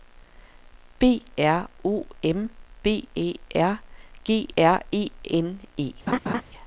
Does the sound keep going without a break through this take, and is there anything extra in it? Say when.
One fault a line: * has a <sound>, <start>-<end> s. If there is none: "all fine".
* has a laugh, 6.1-6.4 s